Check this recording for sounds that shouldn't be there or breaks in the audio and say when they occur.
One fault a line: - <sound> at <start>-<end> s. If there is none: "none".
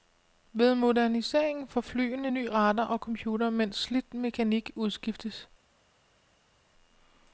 none